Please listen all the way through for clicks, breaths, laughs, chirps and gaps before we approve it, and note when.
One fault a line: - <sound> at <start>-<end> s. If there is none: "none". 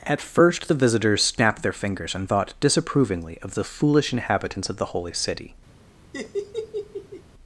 - laugh at 6.1-7.2 s